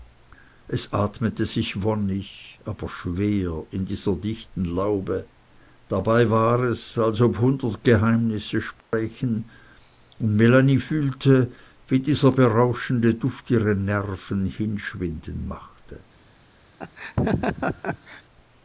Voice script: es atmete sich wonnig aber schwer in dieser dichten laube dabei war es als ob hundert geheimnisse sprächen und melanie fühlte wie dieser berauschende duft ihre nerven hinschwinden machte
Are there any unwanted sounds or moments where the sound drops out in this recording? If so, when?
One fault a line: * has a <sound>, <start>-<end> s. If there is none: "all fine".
* has a dropout, 8.8-8.9 s
* has a laugh, 16.8-18.2 s